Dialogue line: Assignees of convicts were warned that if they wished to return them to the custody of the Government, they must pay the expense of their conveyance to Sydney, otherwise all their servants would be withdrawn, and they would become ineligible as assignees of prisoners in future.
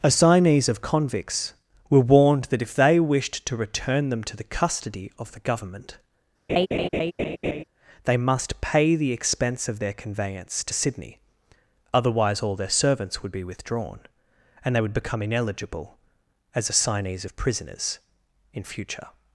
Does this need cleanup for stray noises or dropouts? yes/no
yes